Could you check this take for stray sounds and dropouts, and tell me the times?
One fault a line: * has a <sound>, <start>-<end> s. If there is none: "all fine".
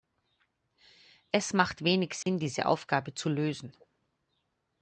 * has a dropout, 2.2-2.3 s